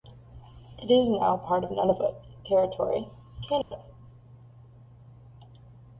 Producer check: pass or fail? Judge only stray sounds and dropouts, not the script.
fail